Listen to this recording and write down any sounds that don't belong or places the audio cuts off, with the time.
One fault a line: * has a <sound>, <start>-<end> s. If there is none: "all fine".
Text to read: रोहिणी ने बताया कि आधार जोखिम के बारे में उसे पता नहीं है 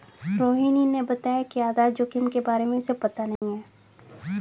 * has a dropout, 3.4-3.4 s